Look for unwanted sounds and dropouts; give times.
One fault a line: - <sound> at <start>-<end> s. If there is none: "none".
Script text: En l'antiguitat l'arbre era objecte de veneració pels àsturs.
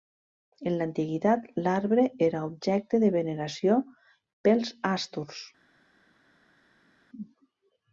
none